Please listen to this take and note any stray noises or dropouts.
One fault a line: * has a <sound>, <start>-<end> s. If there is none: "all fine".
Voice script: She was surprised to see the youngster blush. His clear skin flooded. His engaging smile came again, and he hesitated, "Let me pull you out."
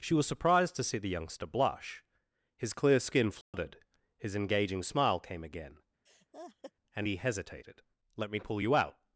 * has a dropout, 3.4-3.5 s
* has a laugh, 6.1-6.7 s